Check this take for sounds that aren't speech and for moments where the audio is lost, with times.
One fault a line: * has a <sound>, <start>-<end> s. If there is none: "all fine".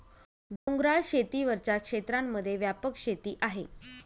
* has a dropout, 0.6-0.7 s